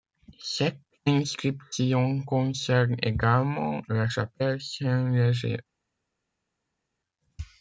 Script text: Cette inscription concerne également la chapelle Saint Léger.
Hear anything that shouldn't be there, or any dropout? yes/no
no